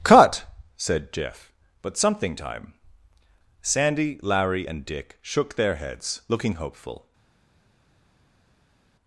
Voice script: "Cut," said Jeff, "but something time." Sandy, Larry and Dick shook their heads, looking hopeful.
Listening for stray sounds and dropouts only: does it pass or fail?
pass